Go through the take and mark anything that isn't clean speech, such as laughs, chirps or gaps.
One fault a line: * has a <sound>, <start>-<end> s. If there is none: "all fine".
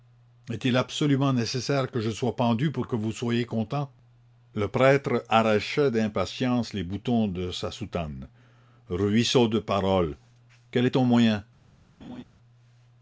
* has a laugh, 12.0-12.2 s